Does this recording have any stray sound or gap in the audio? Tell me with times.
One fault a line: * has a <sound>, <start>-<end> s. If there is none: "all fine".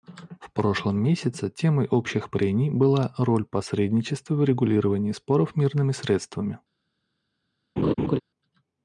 * has a laugh, 7.8-8.2 s